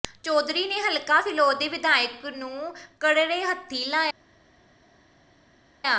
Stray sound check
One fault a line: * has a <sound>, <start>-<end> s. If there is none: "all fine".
all fine